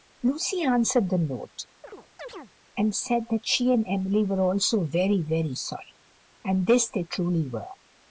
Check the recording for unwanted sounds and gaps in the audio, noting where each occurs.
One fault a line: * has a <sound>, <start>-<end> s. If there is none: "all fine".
* has a chirp, 1.8-2.5 s